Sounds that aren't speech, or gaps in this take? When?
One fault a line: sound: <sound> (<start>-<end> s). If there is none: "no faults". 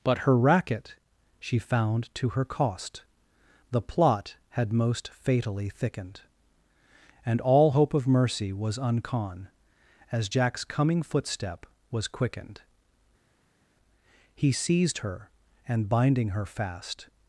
no faults